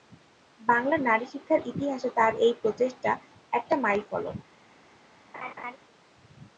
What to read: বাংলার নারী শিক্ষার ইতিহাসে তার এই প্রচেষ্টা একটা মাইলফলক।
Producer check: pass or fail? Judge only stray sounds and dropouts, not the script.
fail